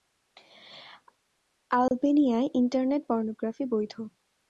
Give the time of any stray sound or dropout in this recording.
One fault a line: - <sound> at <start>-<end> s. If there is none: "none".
- dropout at 1.9-1.9 s